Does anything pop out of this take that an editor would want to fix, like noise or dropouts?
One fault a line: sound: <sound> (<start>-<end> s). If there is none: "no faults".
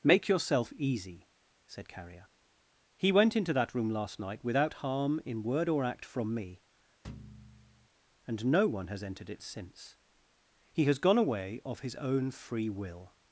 sound: thud (7.0-7.9 s)